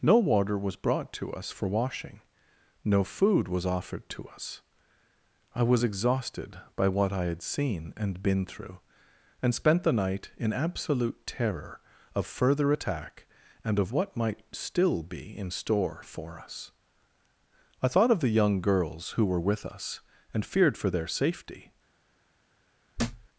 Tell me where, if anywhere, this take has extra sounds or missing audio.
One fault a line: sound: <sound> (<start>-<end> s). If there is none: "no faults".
sound: thud (23.0-23.3 s)